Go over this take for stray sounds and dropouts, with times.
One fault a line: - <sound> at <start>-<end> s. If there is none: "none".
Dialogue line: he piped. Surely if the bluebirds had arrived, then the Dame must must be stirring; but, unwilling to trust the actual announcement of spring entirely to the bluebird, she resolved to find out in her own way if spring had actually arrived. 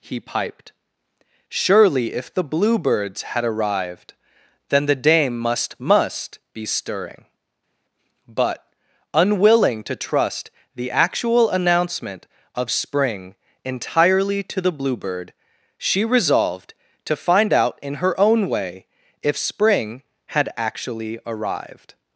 none